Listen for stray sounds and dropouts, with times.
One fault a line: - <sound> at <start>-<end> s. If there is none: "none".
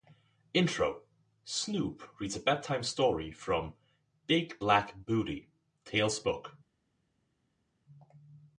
none